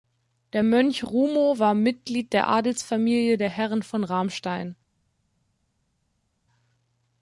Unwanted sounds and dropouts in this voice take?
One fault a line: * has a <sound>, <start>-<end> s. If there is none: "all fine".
all fine